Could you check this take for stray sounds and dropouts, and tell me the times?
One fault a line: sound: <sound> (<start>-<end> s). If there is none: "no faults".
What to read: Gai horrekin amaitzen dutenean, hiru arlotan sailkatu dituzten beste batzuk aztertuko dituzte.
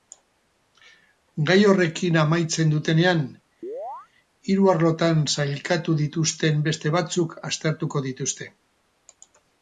sound: chirp (3.6-4.1 s)